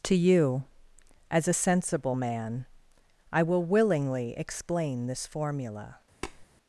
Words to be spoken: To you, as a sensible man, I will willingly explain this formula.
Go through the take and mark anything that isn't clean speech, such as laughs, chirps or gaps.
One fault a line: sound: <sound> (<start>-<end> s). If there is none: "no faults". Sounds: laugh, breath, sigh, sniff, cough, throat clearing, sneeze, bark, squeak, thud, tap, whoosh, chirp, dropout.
sound: tap (6.2-6.5 s)